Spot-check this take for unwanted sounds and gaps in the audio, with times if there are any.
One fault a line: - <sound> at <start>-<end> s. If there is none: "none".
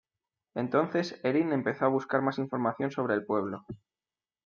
none